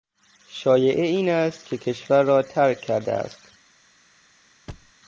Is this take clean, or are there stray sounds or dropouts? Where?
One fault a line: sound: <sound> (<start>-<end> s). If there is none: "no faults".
sound: thud (4.7-4.9 s)